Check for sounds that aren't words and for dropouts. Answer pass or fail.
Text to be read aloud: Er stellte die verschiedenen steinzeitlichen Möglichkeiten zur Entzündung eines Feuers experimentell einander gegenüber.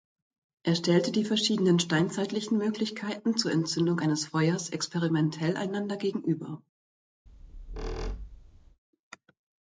fail